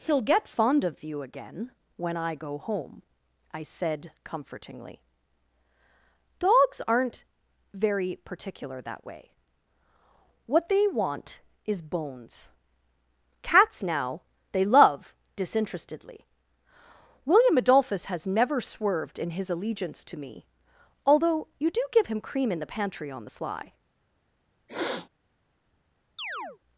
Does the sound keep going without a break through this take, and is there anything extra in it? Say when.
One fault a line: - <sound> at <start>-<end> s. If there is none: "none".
- sniff at 24.7-25.1 s
- chirp at 26.2-26.6 s